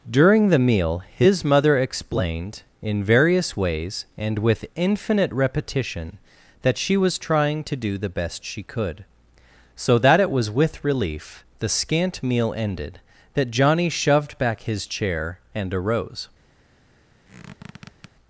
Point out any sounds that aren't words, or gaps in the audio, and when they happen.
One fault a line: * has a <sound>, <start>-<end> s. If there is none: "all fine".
* has a squeak, 17.2-18.1 s